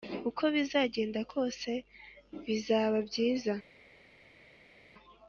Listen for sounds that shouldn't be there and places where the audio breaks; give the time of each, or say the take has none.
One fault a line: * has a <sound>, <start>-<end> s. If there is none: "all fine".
all fine